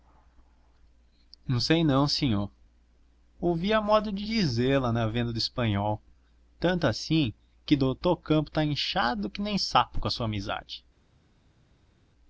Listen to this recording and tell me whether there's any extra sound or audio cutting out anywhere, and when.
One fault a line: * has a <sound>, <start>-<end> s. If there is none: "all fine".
all fine